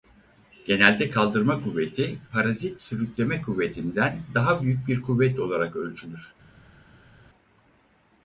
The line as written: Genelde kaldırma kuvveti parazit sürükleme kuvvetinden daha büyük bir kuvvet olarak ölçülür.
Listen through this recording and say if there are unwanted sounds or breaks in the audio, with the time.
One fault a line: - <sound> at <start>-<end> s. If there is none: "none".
none